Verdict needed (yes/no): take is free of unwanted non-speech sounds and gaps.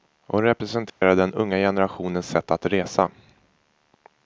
no